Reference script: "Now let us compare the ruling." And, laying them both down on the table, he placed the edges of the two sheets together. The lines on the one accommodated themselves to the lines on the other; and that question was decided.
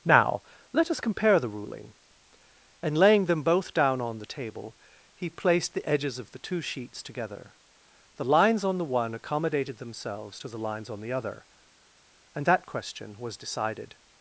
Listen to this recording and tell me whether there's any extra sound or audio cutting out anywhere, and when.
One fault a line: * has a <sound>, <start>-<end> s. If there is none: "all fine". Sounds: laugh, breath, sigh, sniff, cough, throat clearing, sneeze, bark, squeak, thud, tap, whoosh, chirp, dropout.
all fine